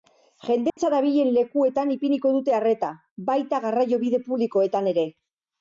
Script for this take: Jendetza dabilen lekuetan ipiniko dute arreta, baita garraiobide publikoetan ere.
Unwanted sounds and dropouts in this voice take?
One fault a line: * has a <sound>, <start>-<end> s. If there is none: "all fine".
* has a dropout, 0.7-0.8 s